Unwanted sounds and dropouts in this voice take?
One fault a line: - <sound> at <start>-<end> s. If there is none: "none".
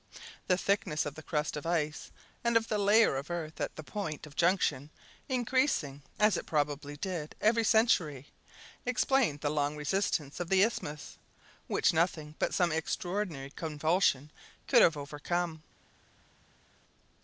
none